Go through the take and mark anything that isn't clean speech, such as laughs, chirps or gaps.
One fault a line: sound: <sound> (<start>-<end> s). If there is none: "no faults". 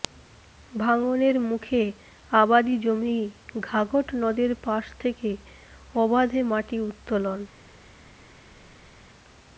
no faults